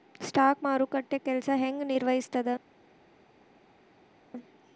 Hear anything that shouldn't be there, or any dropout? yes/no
no